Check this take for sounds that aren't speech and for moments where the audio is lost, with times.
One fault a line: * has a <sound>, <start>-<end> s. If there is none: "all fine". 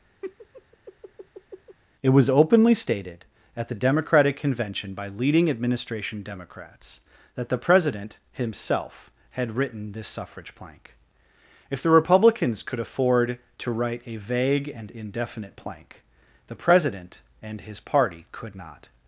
* has a laugh, 0.2-1.8 s